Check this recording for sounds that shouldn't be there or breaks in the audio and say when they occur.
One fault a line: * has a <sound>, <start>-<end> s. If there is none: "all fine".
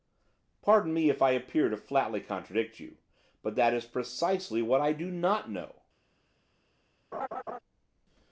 * has a laugh, 7.1-7.6 s